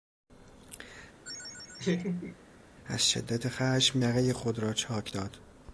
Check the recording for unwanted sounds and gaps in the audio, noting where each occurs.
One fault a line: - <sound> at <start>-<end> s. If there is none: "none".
- laugh at 1.2-2.4 s